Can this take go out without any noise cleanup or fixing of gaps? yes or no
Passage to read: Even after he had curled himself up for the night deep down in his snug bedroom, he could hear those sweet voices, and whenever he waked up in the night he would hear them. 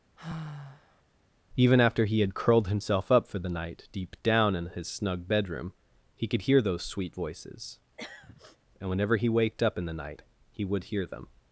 no